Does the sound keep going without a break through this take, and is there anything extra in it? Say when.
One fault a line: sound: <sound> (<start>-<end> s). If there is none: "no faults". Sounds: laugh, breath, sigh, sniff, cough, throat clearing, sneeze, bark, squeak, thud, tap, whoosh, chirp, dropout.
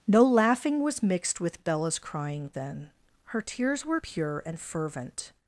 no faults